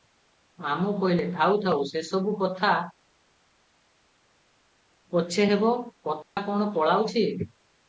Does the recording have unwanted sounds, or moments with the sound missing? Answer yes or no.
yes